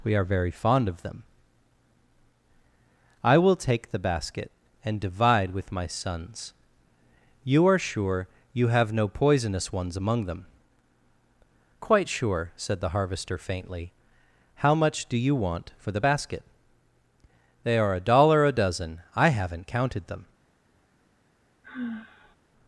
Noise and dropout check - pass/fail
fail